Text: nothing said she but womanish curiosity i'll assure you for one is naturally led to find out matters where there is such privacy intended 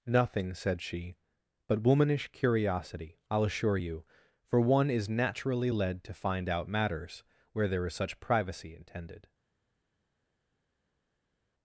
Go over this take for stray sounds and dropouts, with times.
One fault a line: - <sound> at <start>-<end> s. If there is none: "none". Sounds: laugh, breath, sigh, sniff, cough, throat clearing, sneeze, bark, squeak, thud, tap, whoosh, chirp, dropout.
none